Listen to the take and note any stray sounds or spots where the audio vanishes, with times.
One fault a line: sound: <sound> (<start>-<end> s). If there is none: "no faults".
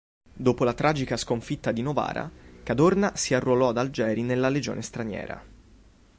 no faults